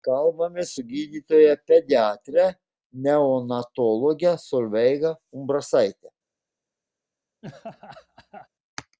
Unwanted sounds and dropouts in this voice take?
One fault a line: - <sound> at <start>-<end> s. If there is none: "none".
- laugh at 7.4-8.5 s